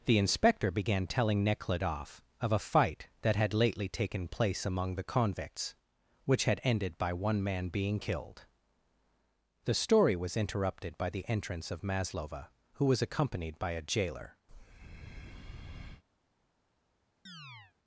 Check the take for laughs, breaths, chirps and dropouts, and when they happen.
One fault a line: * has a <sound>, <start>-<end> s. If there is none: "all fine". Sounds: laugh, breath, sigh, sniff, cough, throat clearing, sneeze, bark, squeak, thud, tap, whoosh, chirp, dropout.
* has a breath, 14.5-16.0 s
* has a chirp, 17.3-17.7 s